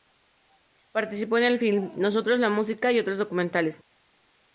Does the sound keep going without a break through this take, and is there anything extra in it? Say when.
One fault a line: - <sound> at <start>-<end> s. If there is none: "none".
none